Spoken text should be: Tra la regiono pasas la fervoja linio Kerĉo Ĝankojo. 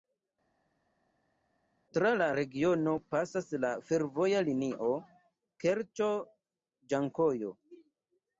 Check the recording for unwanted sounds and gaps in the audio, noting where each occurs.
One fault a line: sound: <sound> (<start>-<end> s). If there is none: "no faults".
no faults